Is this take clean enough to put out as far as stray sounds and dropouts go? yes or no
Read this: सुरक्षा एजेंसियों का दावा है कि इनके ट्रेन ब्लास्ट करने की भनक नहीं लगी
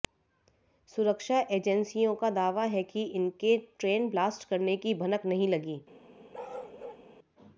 no